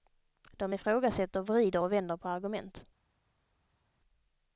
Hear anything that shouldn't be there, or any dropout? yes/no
no